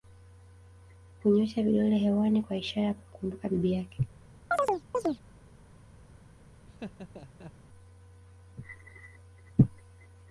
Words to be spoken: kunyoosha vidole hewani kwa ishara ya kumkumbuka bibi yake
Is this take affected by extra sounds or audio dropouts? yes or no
yes